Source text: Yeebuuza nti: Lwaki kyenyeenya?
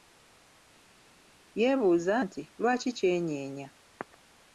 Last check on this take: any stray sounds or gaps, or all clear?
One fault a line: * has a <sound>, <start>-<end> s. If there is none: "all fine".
all fine